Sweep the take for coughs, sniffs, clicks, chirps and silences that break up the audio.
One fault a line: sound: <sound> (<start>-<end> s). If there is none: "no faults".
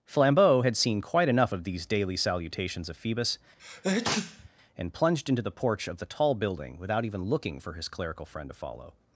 sound: sneeze (3.6-4.5 s)